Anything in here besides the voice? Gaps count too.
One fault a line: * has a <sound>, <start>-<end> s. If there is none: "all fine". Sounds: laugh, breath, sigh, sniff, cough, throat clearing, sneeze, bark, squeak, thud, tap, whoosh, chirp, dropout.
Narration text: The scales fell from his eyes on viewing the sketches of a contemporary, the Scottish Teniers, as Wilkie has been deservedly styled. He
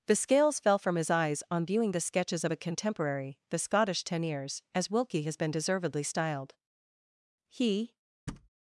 * has a thud, 8.3-8.5 s